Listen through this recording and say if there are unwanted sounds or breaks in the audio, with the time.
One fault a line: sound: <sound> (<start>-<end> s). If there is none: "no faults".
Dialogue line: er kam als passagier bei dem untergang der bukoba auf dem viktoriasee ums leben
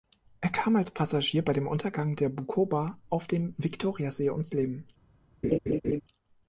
sound: laugh (5.4-6.0 s)